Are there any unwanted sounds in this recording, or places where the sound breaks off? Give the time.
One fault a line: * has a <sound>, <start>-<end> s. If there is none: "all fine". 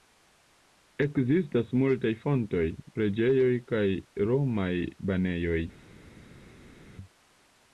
all fine